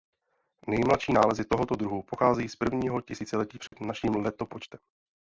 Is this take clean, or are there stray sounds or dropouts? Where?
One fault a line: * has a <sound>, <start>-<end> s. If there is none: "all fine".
* has a dropout, 3.7-3.7 s